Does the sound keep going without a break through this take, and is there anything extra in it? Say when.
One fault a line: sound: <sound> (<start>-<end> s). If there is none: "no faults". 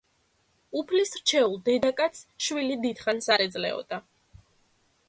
no faults